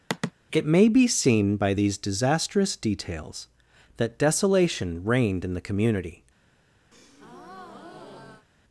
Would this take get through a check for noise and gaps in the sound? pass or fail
fail